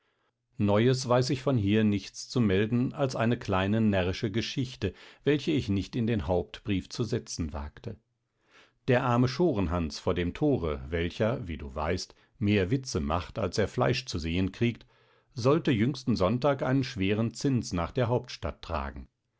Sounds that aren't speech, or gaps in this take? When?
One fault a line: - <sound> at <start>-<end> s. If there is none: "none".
none